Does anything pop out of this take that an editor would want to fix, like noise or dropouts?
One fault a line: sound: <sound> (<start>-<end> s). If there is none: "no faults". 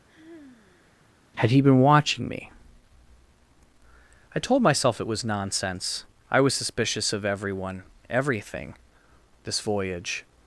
sound: sigh (0.1-1.1 s)